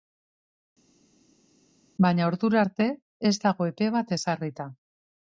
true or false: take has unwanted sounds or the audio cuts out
false